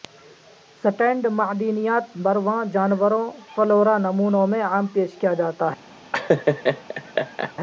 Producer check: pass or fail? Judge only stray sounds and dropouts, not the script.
fail